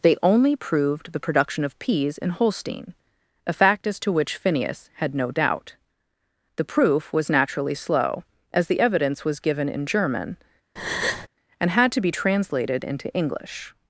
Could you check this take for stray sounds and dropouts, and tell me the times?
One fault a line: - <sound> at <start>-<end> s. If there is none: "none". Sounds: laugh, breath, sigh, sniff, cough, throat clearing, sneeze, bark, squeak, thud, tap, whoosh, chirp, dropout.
- breath at 10.8-11.3 s